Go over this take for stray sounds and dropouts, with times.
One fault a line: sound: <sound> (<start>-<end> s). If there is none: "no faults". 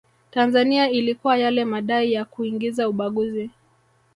no faults